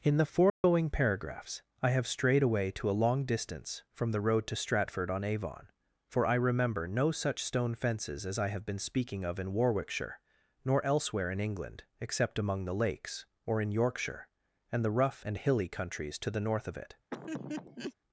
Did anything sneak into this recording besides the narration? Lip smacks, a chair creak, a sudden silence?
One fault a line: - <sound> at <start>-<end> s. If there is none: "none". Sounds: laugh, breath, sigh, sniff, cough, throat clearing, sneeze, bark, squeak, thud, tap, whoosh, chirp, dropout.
- dropout at 0.5-0.6 s
- laugh at 17.1-17.9 s